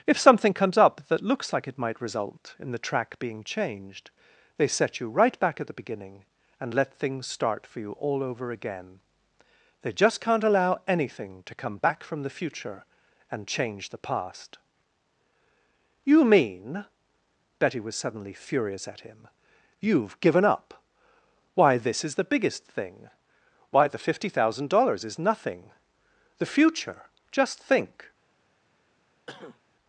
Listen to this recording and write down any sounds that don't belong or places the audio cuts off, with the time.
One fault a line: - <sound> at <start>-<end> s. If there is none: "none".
- cough at 29.3-29.6 s